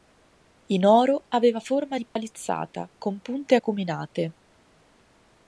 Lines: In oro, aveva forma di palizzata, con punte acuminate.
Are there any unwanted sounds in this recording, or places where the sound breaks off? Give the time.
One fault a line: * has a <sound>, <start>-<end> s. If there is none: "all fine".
* has a dropout, 2.1-2.2 s